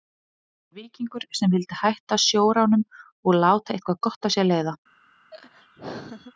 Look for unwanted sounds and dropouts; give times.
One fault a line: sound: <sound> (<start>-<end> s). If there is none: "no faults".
sound: laugh (5.3-6.3 s)